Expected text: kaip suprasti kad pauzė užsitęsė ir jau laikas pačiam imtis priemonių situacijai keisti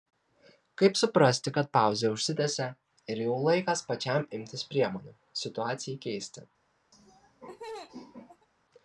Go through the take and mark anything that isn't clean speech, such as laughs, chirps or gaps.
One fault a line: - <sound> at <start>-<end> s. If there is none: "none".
- laugh at 6.9-8.5 s